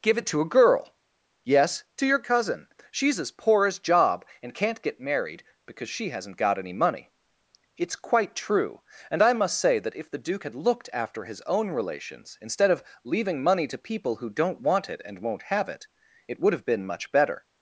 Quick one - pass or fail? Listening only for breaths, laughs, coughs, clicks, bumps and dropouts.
pass